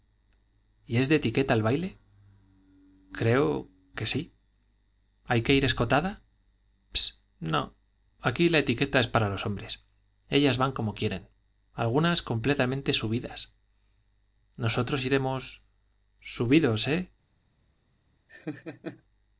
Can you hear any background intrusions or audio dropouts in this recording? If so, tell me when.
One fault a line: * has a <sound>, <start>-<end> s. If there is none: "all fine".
* has a laugh, 18.3-19.0 s